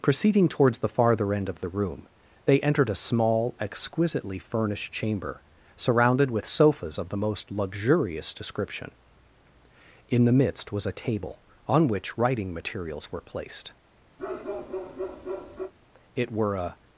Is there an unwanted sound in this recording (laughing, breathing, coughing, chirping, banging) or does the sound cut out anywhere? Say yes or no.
yes